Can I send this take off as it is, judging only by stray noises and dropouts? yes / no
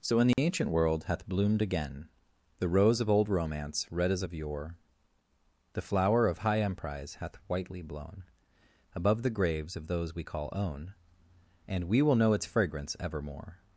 no